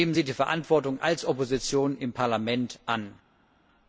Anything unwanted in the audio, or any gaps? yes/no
no